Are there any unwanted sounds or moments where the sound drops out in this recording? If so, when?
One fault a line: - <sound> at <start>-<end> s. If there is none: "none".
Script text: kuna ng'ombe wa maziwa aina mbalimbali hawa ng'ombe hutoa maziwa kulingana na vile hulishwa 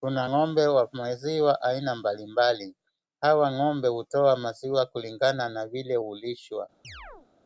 - chirp at 6.8-7.3 s